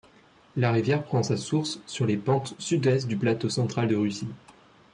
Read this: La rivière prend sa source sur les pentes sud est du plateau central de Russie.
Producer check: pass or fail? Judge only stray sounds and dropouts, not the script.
pass